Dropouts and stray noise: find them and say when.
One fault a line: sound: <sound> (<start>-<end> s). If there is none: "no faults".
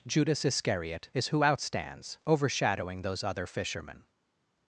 no faults